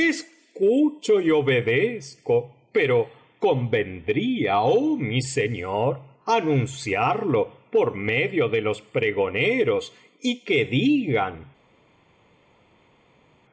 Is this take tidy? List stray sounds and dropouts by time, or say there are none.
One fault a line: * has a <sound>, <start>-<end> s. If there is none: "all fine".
all fine